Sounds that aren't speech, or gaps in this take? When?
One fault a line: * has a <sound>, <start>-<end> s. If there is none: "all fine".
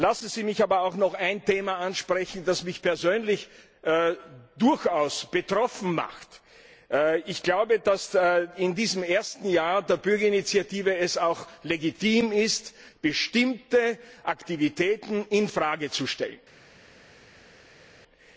all fine